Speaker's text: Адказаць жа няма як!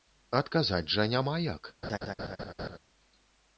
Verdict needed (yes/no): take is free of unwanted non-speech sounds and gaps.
no